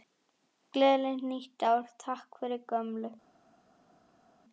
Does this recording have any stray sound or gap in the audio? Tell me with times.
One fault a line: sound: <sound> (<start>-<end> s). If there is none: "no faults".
no faults